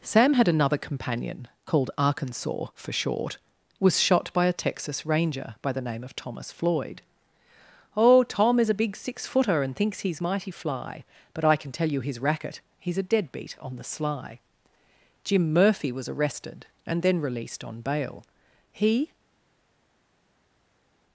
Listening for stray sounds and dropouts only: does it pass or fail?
pass